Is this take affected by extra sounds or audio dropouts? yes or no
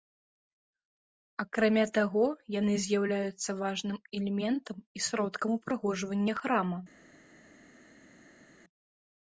no